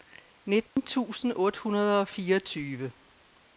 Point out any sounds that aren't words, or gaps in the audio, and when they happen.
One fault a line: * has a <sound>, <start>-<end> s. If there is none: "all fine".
* has a dropout, 0.7-0.8 s